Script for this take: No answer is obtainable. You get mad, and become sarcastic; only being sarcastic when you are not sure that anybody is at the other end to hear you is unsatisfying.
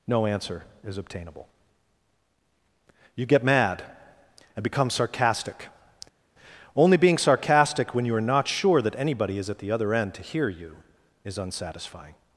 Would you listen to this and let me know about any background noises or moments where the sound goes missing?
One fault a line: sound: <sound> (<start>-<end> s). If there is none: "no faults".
no faults